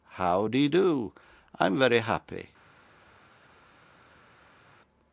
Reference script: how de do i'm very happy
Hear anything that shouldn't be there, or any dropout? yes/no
no